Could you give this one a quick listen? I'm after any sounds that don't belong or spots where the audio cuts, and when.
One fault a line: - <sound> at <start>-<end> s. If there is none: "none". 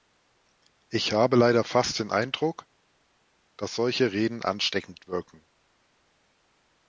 none